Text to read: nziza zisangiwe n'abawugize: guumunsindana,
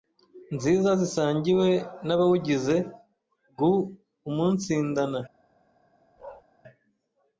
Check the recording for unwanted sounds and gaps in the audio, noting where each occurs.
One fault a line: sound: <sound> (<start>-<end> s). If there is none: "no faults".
sound: bark (6.2-6.4 s)